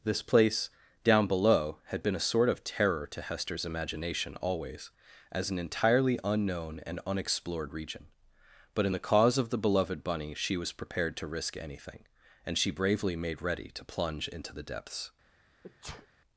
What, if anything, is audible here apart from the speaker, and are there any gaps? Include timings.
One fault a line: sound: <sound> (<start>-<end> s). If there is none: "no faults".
sound: sneeze (15.6-16.1 s)